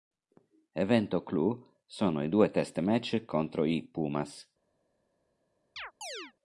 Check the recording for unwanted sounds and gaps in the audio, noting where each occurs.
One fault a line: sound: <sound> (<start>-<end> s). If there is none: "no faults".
sound: chirp (5.8-6.3 s)